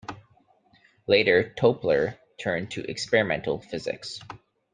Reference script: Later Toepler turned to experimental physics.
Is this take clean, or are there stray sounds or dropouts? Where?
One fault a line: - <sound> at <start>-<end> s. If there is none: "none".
none